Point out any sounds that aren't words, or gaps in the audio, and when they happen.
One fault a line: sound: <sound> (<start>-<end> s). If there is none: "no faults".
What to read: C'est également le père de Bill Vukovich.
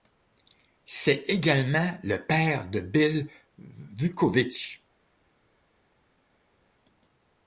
no faults